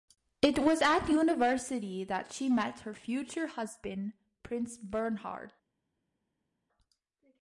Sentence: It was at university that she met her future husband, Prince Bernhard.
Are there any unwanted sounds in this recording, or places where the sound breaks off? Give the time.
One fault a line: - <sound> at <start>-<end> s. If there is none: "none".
none